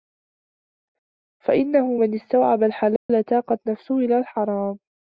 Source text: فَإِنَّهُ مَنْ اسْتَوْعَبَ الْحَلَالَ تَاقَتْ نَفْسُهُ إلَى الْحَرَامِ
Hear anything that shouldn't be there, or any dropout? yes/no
yes